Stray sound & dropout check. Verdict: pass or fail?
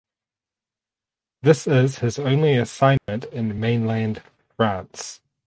fail